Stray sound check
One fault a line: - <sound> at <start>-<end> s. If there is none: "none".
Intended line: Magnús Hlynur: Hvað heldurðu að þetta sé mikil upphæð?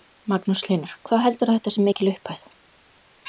none